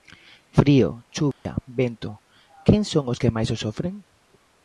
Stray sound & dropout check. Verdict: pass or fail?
fail